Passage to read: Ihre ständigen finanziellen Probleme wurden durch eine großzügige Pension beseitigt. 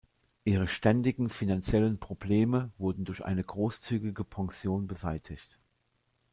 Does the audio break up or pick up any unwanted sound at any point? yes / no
no